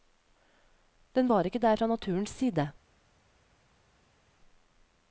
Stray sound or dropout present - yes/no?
no